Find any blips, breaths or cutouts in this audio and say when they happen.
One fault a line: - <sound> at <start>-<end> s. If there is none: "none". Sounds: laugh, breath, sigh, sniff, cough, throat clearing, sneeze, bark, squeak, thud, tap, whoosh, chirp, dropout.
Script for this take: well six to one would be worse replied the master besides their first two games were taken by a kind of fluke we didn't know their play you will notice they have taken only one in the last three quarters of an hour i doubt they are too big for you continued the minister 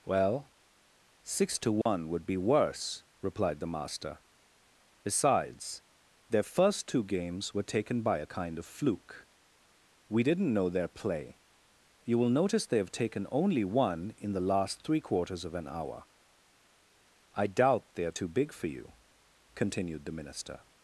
- dropout at 1.8-1.9 s